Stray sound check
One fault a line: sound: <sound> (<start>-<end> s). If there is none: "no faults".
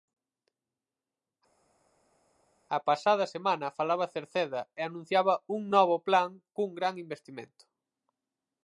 no faults